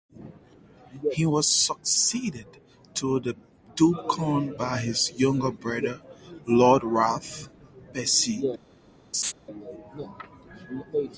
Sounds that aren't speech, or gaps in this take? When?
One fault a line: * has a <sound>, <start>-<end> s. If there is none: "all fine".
* has a laugh, 9.1-9.3 s